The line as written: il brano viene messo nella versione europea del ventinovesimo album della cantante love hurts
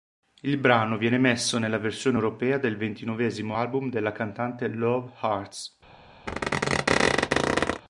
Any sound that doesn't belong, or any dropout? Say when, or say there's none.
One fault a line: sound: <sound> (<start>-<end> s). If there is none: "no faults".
sound: squeak (6.3-7.8 s)